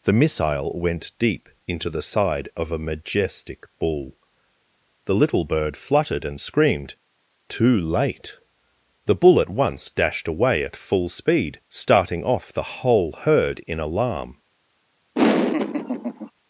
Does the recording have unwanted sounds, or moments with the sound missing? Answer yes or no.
yes